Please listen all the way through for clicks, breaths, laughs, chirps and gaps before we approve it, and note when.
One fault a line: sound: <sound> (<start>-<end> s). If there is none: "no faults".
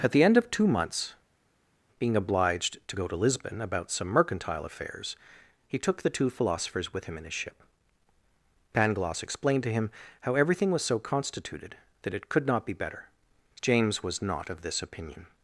no faults